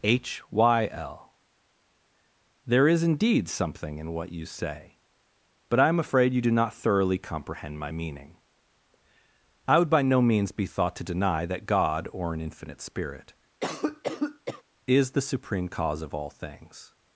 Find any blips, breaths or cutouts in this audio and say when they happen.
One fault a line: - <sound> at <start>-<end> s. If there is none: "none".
- cough at 13.6-14.6 s